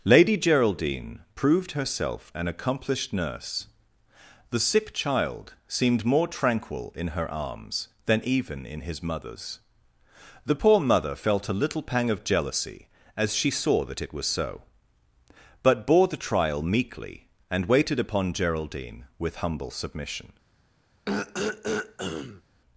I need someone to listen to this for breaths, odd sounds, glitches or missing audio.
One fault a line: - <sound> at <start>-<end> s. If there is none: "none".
- throat clearing at 21.1-22.4 s